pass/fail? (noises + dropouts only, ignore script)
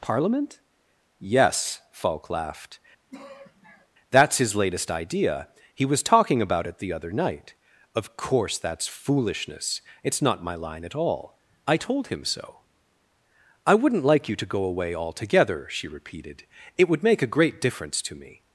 fail